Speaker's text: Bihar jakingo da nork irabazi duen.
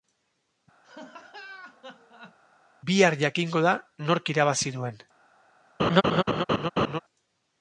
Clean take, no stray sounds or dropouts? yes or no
no